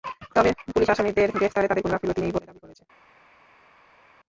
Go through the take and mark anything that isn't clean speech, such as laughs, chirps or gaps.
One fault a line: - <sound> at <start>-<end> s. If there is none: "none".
none